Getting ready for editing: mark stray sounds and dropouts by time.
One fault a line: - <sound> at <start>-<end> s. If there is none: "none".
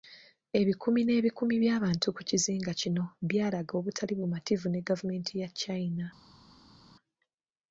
none